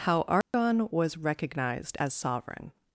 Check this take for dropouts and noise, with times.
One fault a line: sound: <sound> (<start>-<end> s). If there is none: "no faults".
sound: dropout (0.4-0.5 s)